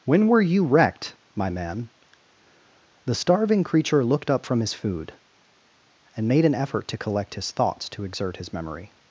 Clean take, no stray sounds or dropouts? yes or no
yes